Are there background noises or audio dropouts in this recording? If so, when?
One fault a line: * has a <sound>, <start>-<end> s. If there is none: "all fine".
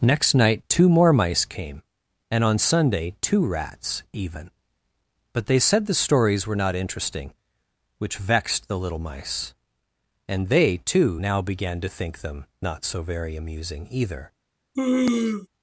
* has a sneeze, 14.8-15.5 s